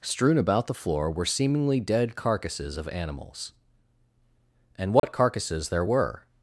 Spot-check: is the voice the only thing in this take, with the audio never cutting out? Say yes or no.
no